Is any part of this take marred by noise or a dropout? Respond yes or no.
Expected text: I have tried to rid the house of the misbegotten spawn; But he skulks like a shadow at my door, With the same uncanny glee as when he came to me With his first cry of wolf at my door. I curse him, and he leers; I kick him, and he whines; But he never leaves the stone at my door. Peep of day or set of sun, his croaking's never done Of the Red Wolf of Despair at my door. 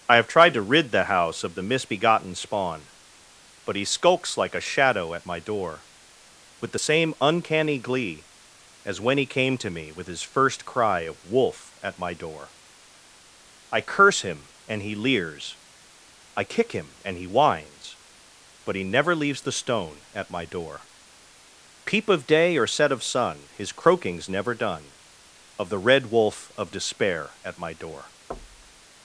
yes